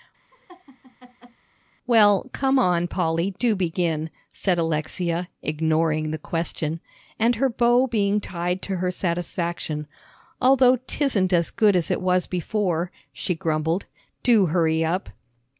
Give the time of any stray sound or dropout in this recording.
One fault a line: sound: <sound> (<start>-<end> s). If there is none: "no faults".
sound: laugh (0.3-1.4 s)